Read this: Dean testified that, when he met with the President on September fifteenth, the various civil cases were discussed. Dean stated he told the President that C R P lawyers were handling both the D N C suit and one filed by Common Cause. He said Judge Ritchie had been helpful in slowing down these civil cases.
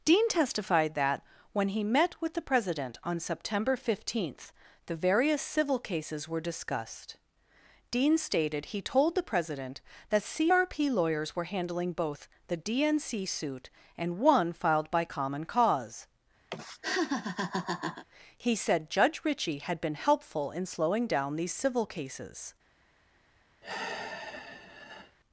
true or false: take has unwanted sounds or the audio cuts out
true